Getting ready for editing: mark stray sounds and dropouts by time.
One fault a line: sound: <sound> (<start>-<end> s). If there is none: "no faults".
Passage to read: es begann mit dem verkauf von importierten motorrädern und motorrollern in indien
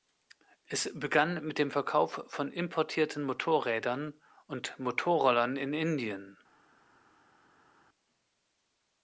no faults